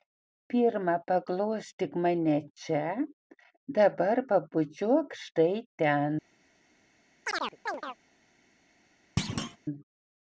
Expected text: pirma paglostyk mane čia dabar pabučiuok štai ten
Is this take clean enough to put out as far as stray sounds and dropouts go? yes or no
no